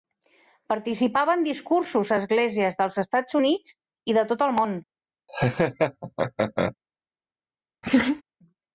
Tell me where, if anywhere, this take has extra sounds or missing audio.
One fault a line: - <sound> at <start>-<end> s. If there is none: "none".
- laugh at 5.3-6.8 s
- laugh at 7.8-8.2 s